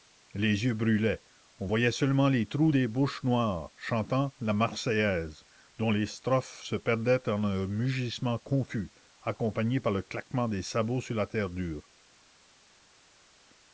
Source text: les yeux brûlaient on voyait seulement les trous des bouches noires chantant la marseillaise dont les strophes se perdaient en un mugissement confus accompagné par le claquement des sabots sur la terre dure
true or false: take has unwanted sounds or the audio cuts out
false